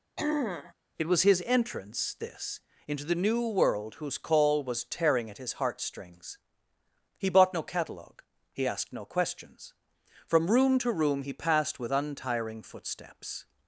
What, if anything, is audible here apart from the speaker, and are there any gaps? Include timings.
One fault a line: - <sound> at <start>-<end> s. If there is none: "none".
- throat clearing at 0.2-0.7 s